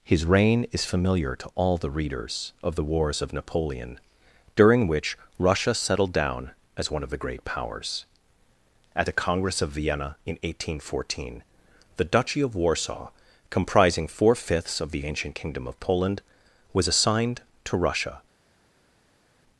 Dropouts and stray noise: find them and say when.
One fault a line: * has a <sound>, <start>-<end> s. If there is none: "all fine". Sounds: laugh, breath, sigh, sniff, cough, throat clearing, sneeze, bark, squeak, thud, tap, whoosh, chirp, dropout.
all fine